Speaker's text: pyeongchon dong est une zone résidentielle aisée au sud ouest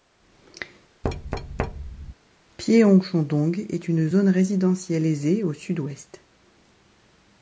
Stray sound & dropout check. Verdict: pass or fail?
fail